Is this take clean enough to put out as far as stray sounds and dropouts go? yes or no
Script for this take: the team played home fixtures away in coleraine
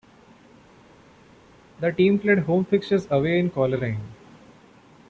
yes